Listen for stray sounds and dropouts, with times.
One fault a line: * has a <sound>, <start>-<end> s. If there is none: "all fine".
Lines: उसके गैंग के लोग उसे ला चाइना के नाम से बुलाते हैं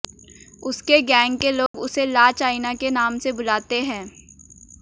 * has a dropout, 1.7-1.7 s